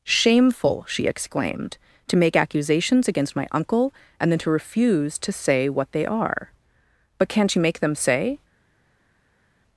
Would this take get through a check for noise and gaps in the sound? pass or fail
pass